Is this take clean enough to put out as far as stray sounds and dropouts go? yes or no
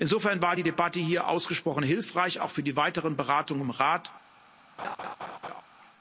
no